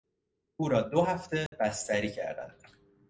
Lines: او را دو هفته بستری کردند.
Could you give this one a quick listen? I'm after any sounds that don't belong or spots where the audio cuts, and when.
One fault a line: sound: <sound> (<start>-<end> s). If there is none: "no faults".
sound: dropout (1.5-1.5 s)